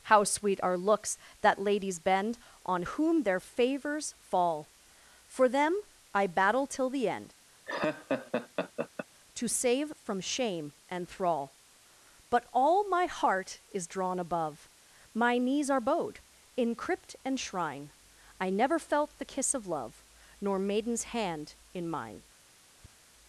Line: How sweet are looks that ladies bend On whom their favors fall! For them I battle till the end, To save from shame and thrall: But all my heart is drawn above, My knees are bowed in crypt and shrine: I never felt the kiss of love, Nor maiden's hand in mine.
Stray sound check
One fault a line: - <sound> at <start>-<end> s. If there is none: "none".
- laugh at 7.6-9.1 s
- tap at 22.8-23.0 s